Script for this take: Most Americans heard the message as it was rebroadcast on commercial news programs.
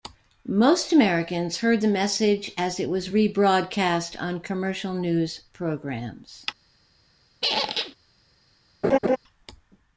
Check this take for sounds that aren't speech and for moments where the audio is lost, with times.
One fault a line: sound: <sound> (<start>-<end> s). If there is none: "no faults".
sound: squeak (7.4-8.0 s)
sound: laugh (8.8-9.2 s)